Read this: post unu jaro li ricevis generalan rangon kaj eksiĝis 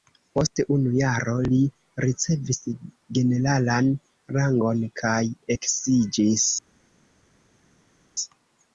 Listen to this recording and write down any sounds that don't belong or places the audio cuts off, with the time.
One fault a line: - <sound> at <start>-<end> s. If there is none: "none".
none